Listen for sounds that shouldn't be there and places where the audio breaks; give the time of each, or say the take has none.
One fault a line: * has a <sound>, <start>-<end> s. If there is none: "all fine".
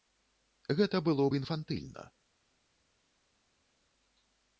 all fine